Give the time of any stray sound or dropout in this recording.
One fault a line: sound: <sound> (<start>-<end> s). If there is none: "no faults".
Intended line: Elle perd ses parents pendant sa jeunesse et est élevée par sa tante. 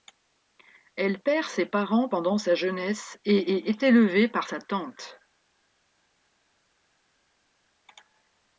no faults